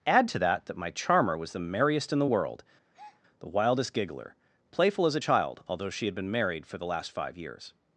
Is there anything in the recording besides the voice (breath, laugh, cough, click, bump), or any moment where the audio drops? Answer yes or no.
yes